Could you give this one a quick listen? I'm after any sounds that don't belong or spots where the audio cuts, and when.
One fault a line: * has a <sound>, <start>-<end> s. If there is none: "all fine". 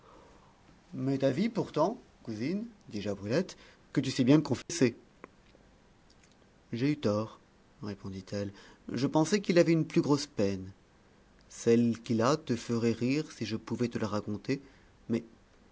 * has a dropout, 4.6-4.7 s